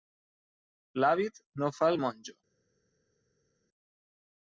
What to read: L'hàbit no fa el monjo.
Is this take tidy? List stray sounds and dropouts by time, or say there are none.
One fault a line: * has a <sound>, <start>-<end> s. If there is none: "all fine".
all fine